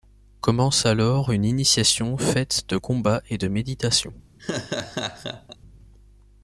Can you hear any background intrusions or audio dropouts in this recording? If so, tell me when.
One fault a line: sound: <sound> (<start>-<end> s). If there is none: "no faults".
sound: laugh (4.4-5.6 s)